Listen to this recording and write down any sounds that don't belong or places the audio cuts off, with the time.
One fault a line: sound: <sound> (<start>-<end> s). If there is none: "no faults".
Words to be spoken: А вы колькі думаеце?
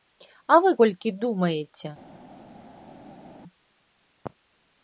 no faults